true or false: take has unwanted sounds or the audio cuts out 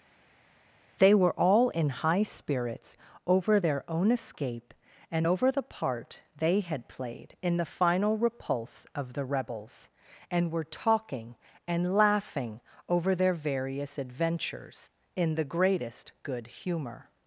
false